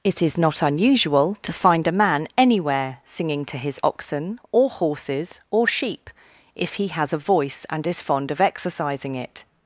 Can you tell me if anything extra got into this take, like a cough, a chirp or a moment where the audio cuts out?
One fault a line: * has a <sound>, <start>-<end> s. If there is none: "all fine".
all fine